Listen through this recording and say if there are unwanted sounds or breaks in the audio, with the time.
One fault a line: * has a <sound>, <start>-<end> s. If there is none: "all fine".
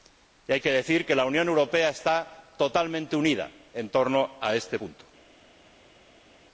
all fine